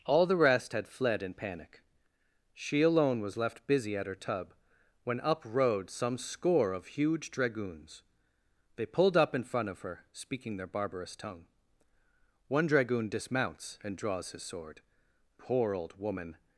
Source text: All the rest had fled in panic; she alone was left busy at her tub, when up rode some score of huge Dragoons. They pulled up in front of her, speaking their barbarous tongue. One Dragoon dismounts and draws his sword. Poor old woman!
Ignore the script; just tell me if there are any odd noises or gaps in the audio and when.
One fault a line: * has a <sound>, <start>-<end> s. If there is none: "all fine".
all fine